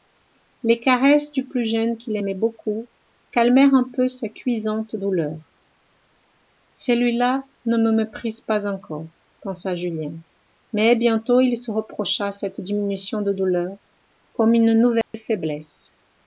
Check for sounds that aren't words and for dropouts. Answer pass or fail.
fail